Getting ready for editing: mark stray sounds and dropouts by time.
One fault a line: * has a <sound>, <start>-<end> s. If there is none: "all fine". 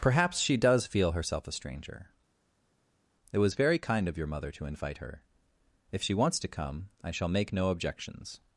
all fine